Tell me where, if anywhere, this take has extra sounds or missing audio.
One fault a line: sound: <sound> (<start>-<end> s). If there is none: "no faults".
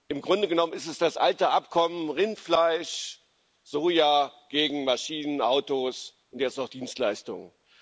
no faults